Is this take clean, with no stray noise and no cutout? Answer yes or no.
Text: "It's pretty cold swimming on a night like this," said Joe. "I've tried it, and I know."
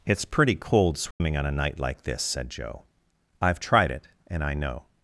no